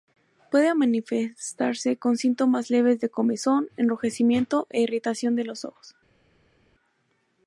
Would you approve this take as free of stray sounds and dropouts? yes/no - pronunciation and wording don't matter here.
yes